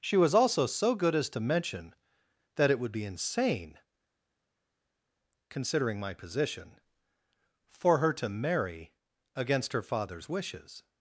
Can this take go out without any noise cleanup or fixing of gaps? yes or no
yes